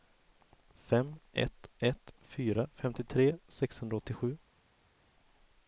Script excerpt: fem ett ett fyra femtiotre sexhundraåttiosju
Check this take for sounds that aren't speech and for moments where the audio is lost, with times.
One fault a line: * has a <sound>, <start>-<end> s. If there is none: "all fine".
all fine